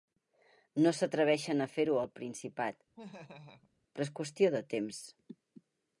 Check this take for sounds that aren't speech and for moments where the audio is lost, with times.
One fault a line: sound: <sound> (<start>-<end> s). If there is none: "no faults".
sound: laugh (3.0-3.7 s)